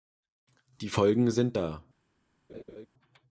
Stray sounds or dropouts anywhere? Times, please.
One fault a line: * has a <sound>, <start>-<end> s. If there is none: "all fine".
* has a laugh, 2.5-2.9 s